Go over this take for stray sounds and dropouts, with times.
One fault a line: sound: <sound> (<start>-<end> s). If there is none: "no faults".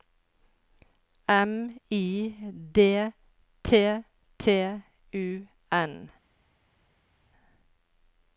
no faults